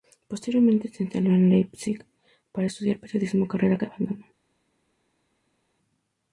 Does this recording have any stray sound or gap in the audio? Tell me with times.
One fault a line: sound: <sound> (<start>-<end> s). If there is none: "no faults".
no faults